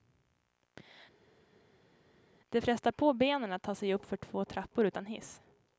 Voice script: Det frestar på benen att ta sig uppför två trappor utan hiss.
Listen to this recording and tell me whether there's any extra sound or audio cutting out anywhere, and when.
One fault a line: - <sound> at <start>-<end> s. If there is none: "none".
none